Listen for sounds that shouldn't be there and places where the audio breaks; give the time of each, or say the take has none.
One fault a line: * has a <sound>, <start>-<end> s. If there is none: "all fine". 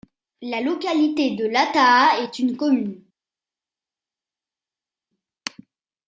all fine